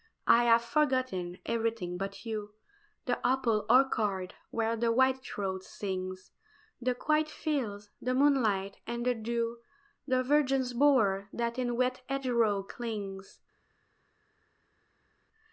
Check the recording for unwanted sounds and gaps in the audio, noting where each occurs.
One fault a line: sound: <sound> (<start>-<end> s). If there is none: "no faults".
no faults